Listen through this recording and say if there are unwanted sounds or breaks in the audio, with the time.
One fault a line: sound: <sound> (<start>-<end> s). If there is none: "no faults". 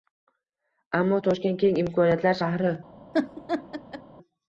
sound: laugh (3.1-4.0 s)